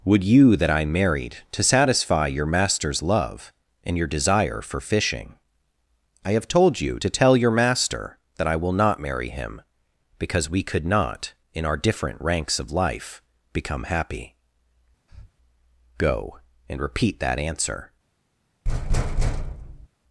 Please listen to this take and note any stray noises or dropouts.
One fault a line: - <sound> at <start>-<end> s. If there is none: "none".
- breath at 15.1-15.3 s
- thud at 18.6-19.9 s